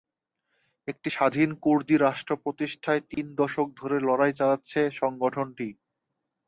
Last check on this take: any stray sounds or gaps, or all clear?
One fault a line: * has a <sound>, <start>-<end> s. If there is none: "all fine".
* has a dropout, 3.1-3.2 s